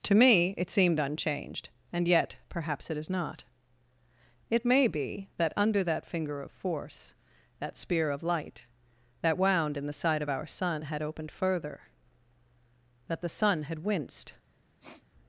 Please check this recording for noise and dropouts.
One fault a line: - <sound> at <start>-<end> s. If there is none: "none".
- sniff at 14.8-15.1 s